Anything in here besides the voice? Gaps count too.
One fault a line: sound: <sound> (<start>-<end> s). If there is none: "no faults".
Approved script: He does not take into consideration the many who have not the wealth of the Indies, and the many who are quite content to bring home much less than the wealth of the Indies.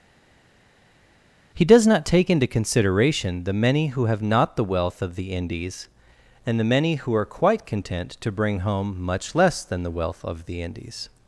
no faults